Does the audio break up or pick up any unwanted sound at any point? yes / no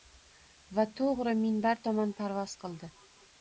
no